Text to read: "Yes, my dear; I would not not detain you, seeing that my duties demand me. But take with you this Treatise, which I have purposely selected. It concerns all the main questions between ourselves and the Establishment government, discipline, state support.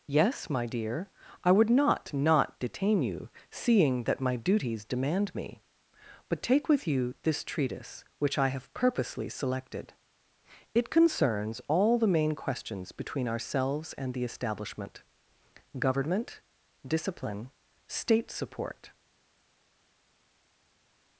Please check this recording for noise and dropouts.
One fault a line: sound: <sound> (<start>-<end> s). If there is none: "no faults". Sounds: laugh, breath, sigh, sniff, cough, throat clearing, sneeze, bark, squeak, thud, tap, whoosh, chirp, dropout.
no faults